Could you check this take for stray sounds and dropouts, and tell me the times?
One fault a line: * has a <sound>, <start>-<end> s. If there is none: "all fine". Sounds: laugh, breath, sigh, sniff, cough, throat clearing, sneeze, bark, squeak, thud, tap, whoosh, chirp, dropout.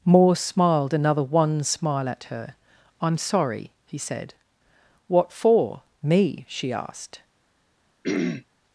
* has a throat clearing, 8.0-8.4 s